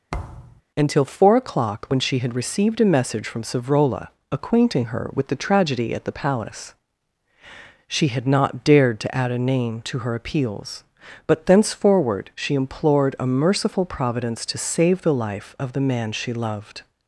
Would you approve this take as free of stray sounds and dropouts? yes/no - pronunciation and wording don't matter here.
no